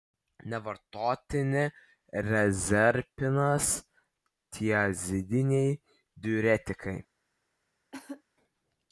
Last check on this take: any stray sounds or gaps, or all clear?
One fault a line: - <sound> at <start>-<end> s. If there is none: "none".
- cough at 7.9-8.2 s